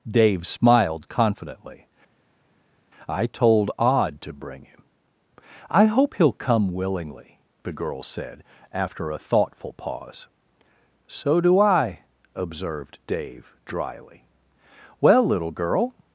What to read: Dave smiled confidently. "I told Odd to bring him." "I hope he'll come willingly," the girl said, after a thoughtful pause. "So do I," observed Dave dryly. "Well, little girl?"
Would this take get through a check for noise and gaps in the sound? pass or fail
pass